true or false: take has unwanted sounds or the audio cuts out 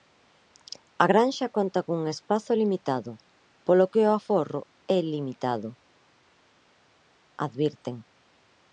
false